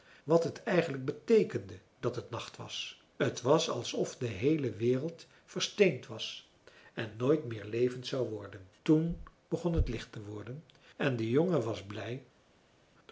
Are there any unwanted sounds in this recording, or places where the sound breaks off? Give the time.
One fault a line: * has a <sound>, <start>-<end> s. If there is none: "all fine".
all fine